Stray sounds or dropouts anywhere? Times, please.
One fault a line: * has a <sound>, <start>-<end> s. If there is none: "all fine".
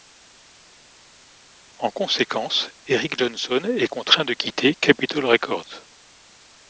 all fine